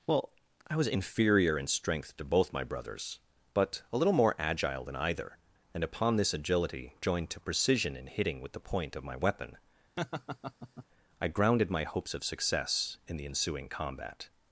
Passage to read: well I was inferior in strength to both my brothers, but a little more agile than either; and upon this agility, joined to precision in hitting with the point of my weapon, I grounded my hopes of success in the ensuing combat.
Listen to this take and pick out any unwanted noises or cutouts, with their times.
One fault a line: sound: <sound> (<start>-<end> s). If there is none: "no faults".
sound: laugh (10.0-10.8 s)